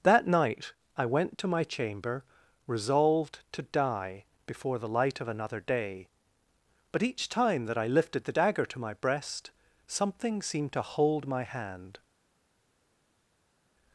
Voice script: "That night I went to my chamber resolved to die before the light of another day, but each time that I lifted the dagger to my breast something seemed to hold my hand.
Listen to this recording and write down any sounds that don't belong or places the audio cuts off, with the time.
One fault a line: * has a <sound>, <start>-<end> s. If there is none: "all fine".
all fine